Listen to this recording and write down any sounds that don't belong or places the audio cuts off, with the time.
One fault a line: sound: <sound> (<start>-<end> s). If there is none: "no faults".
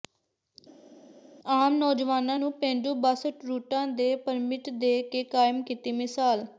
no faults